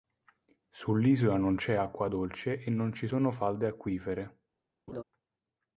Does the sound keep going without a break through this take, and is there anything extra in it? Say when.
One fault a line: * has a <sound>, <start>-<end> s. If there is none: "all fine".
* has a laugh, 4.9-5.0 s